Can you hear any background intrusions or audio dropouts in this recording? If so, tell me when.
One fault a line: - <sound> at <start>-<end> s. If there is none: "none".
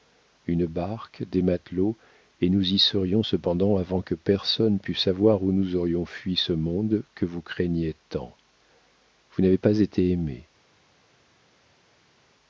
none